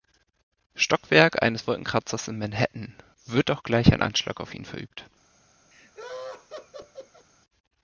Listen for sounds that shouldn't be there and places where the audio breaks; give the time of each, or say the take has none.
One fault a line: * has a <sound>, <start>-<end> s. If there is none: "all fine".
* has a laugh, 5.7-7.3 s